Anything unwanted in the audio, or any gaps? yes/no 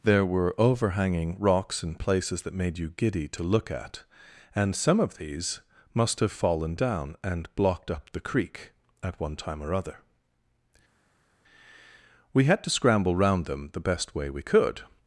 no